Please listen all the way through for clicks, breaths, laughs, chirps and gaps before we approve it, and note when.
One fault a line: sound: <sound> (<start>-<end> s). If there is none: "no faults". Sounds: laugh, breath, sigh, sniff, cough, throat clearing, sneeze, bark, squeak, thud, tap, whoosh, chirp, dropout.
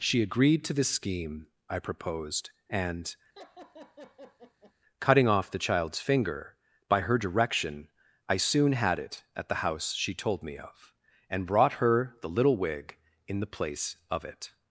sound: laugh (3.4-4.7 s)